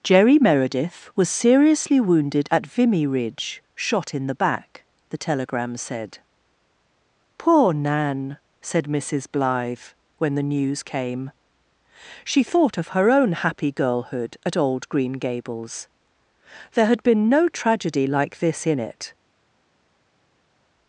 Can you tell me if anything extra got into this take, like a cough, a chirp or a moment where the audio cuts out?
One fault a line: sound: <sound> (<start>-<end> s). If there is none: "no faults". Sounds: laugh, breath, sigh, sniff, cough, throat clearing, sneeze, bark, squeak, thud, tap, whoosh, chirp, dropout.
no faults